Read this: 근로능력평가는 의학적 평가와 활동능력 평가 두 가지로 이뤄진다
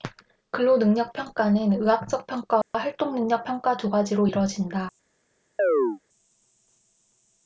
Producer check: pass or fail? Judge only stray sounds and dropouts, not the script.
fail